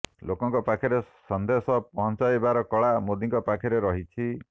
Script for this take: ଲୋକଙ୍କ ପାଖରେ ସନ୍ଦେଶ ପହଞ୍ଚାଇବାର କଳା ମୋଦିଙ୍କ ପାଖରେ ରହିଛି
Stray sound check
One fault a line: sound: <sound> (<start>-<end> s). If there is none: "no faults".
no faults